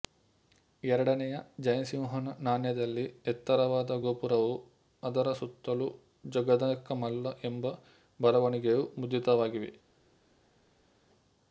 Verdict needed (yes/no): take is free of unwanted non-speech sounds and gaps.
yes